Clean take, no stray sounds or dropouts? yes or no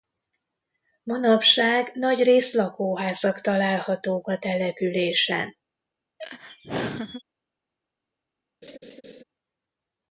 no